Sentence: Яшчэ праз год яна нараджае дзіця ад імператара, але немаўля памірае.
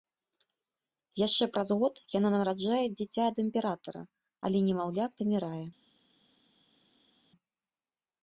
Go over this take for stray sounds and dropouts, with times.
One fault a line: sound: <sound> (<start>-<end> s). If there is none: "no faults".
no faults